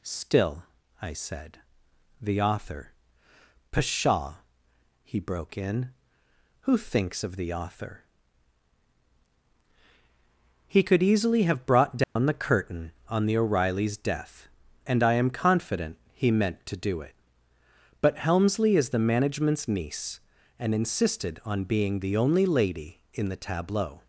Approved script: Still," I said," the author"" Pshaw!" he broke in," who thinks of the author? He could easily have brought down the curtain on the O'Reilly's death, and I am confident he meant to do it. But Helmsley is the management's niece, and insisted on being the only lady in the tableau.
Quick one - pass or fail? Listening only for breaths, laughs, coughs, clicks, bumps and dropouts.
fail